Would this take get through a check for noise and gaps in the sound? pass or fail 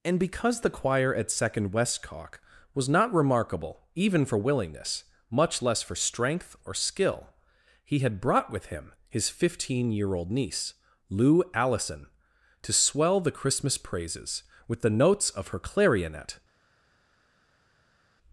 pass